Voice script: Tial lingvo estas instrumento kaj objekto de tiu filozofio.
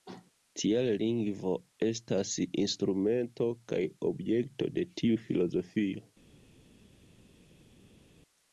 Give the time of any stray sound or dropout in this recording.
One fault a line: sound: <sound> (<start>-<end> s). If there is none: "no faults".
no faults